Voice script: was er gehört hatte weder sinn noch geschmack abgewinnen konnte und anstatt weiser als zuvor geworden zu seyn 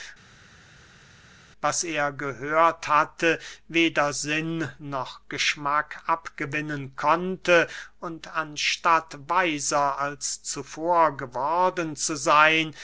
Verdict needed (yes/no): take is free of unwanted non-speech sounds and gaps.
yes